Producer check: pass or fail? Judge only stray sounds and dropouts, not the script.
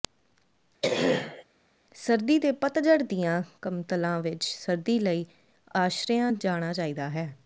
fail